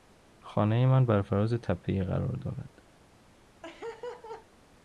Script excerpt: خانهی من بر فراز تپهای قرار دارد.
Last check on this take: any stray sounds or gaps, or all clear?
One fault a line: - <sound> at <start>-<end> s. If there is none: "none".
- laugh at 3.6-4.5 s